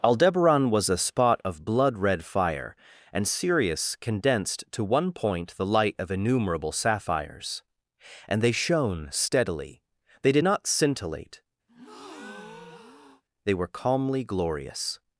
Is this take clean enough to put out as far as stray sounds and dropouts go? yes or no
no